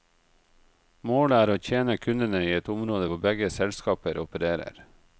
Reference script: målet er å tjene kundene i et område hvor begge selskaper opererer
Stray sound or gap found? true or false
false